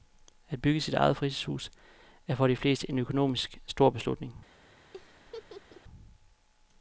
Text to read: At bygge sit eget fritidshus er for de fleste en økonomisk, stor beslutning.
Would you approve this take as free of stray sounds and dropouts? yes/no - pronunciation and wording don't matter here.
no